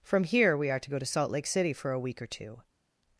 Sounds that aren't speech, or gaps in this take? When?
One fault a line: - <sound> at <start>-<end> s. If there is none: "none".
none